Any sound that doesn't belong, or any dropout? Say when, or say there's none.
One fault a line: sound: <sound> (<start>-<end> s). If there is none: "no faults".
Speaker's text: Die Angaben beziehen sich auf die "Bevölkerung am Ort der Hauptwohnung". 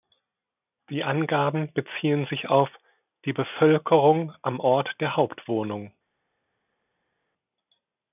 no faults